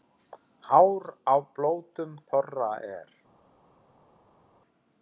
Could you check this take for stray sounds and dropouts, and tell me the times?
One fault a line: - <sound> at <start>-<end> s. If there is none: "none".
none